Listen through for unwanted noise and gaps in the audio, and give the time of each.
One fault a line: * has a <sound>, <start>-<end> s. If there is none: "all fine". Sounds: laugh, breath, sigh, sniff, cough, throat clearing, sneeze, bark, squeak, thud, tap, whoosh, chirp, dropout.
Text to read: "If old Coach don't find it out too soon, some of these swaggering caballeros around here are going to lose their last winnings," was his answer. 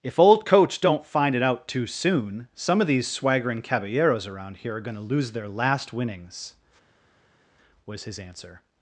all fine